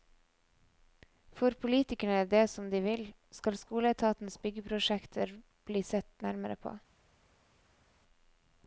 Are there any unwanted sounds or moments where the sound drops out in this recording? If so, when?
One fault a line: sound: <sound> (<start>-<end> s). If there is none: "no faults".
no faults